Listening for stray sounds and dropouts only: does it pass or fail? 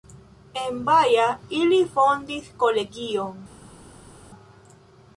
pass